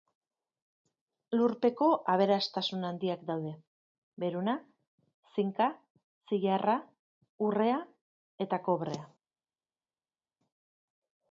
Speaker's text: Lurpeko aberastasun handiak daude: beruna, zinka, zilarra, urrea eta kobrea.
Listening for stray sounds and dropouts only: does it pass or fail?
pass